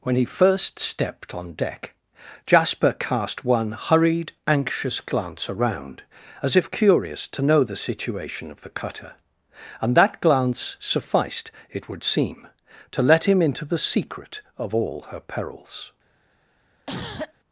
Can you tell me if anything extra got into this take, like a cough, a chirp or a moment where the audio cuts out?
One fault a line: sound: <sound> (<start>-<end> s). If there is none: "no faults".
sound: cough (16.9-17.3 s)